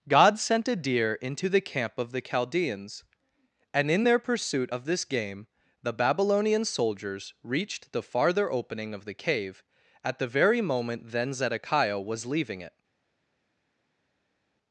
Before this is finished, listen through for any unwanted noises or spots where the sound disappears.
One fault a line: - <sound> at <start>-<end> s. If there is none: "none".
none